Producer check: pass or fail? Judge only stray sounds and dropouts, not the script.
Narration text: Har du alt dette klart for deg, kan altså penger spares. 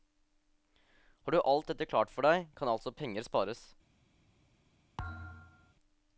fail